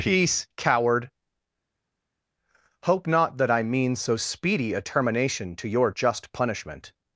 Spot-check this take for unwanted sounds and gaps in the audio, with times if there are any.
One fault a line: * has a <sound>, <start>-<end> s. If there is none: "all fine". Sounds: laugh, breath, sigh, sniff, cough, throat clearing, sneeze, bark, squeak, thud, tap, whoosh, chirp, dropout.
all fine